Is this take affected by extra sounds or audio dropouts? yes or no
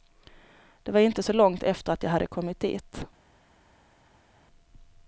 no